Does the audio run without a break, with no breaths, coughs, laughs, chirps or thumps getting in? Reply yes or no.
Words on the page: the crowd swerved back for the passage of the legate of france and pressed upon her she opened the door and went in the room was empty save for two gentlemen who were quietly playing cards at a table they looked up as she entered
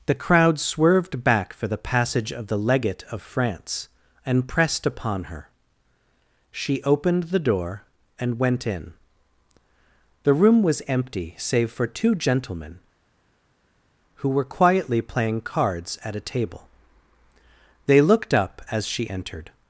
yes